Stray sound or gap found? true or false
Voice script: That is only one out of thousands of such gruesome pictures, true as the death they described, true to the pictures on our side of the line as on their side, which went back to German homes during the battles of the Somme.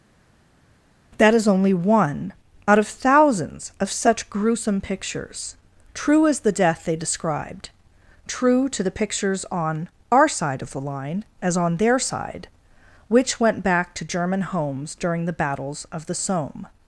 false